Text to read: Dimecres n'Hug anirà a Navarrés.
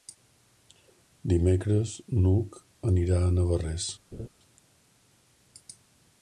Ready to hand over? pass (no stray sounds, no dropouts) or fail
fail